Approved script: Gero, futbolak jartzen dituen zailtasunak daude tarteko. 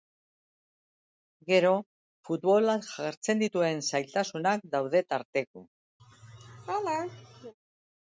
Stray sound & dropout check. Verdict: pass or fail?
fail